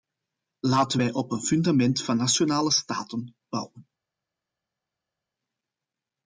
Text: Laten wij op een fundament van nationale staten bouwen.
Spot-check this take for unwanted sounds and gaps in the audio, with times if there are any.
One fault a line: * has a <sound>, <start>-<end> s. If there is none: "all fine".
all fine